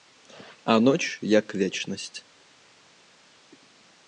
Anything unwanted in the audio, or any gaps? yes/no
no